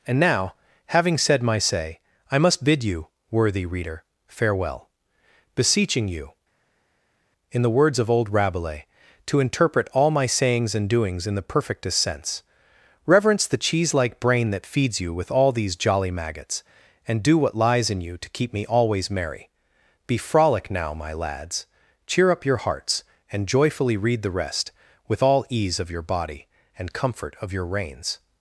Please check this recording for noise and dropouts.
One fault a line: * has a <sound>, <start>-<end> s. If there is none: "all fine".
all fine